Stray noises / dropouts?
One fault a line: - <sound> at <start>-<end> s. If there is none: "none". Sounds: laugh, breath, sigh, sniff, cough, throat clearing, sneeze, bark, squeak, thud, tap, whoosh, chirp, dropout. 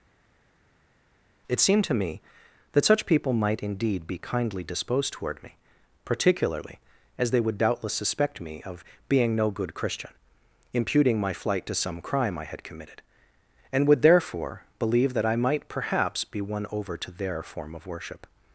none